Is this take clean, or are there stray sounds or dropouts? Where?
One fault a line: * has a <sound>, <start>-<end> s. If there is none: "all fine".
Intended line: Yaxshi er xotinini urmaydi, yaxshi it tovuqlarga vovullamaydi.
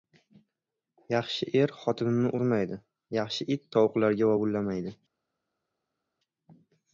all fine